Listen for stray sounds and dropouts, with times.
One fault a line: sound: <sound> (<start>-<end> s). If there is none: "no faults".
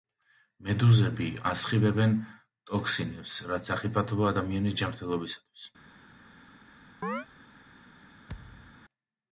sound: chirp (7.0-7.3 s)
sound: thud (8.3-8.8 s)